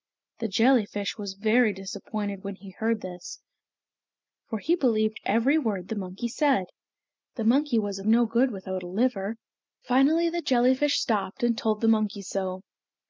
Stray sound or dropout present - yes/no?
no